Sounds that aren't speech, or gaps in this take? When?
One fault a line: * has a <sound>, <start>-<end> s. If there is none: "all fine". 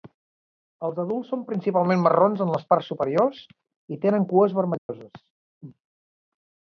* has a dropout, 4.8-4.9 s